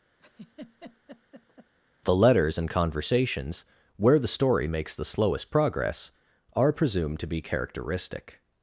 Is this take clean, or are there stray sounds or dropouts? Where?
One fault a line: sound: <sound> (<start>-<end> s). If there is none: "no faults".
sound: laugh (0.2-1.7 s)